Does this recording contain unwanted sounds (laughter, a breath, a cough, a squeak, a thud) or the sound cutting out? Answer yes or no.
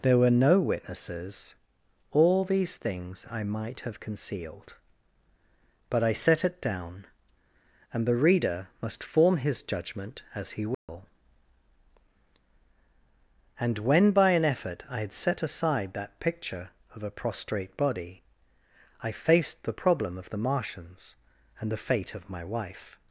yes